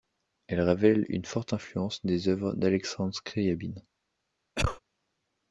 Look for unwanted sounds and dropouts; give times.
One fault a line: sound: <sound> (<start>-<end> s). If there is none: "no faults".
sound: cough (4.5-4.8 s)